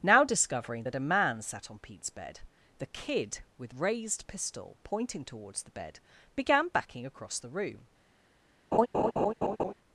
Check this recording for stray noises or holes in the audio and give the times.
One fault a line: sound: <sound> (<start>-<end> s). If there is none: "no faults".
sound: laugh (8.7-9.7 s)